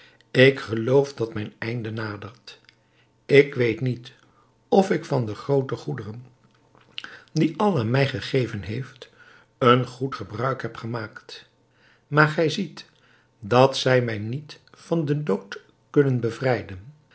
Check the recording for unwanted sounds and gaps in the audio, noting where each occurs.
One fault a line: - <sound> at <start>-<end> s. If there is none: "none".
none